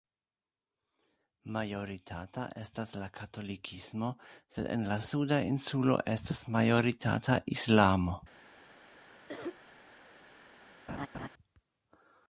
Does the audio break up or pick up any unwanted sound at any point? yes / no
yes